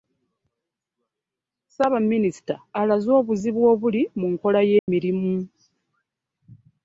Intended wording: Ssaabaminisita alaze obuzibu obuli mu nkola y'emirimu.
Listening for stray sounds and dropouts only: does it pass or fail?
fail